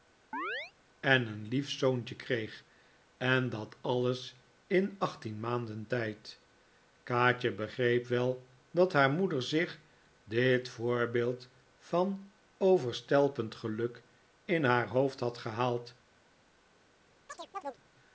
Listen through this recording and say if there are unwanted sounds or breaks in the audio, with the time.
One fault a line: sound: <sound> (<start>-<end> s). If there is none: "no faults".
sound: chirp (0.3-0.7 s)
sound: chirp (17.3-17.8 s)